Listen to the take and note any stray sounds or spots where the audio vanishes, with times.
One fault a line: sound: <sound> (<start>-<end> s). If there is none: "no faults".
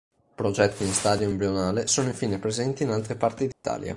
sound: dropout (3.5-3.6 s)